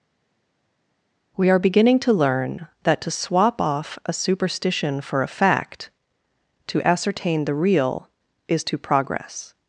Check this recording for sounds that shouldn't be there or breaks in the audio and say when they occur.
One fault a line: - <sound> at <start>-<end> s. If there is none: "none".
none